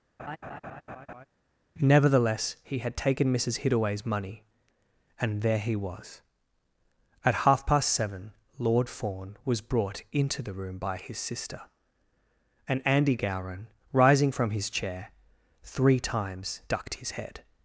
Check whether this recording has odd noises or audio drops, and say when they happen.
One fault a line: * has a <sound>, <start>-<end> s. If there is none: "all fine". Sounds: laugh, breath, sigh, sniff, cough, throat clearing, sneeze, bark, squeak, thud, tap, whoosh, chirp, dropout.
* has a laugh, 0.2-1.3 s